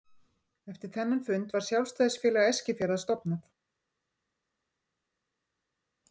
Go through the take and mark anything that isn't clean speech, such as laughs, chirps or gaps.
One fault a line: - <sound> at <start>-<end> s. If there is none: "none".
none